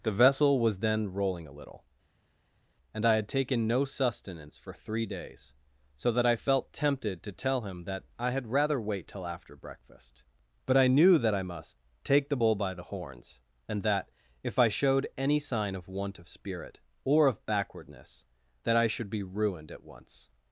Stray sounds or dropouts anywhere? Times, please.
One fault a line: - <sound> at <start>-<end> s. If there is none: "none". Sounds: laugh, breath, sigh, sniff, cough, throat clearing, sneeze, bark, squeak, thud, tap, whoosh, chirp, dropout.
none